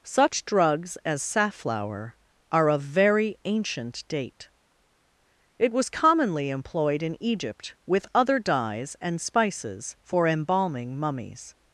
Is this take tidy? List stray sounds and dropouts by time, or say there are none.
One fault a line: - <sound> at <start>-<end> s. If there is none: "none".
none